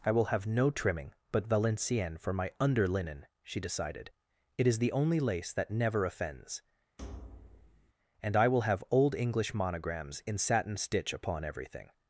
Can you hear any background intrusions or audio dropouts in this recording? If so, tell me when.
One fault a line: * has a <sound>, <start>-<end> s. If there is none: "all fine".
* has a thud, 7.0-7.9 s